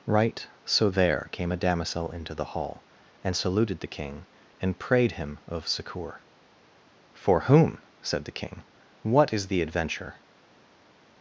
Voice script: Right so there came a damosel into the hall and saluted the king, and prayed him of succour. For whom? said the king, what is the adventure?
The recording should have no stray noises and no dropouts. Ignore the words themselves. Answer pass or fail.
pass